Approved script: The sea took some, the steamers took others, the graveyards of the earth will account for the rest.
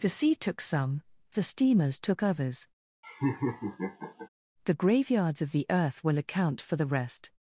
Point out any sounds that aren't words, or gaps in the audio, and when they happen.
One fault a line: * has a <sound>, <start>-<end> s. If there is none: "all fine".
* has a laugh, 3.0-4.3 s